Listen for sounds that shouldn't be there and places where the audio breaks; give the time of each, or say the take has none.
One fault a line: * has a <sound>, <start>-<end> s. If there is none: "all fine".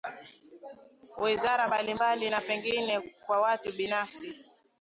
all fine